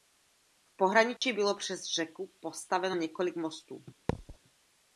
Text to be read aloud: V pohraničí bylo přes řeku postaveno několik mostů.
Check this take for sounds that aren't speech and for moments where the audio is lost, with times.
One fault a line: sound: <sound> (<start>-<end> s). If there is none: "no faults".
sound: dropout (1.2-1.2 s)
sound: thud (4.1-4.4 s)